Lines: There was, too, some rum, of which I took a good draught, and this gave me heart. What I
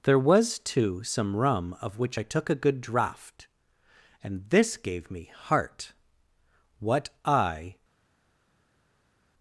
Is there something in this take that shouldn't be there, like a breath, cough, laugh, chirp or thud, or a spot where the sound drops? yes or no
no